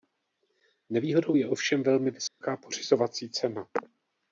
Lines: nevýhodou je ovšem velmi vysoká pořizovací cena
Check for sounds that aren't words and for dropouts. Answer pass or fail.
fail